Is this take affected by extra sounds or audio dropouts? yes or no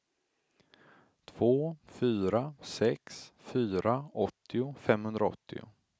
no